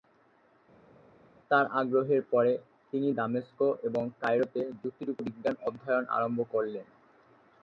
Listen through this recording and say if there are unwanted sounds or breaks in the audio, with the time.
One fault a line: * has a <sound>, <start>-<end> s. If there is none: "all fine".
all fine